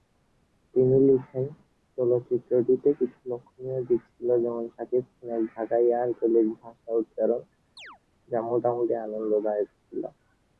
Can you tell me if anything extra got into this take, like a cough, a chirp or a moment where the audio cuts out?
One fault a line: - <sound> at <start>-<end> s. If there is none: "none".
- chirp at 7.8-8.0 s